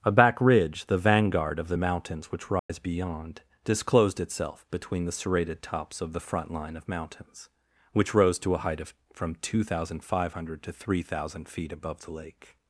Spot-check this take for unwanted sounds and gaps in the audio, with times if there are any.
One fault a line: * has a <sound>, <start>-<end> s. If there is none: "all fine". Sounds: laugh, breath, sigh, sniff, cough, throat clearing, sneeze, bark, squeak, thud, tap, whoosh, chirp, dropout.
* has a dropout, 2.6-2.7 s